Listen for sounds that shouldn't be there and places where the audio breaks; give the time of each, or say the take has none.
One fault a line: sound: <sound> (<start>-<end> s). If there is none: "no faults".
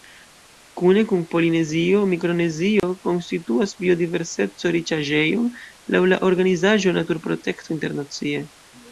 sound: dropout (2.8-2.8 s)